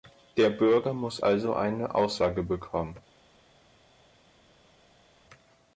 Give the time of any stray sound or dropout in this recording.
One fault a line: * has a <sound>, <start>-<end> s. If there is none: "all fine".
all fine